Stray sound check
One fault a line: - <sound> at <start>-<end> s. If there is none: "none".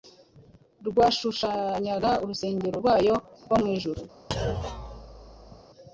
- thud at 4.3-5.6 s